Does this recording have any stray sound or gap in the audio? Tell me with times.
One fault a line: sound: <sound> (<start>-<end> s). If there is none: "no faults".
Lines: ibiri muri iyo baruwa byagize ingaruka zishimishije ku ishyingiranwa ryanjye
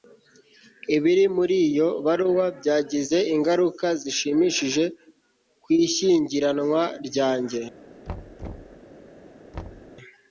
sound: thud (8.1-8.8 s)
sound: thud (9.5-9.9 s)